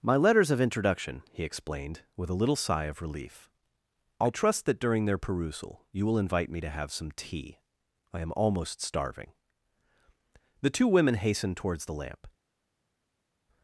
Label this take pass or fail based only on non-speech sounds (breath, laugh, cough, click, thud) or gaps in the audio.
pass